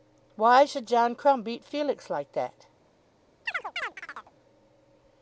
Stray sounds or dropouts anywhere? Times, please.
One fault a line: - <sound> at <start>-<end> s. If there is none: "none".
- chirp at 3.5-4.3 s